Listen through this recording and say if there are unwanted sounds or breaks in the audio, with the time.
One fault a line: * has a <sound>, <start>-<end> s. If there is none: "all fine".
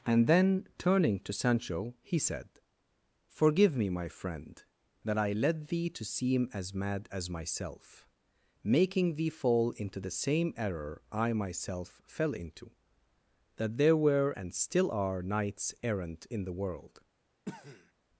* has a cough, 17.4-17.9 s